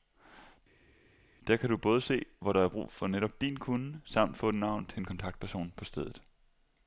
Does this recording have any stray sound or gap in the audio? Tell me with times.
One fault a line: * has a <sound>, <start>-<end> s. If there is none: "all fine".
all fine